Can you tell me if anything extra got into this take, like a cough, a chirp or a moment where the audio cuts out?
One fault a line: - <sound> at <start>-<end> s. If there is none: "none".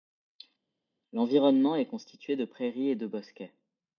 none